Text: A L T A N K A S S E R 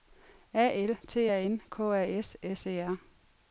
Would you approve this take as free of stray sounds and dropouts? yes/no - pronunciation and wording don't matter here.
yes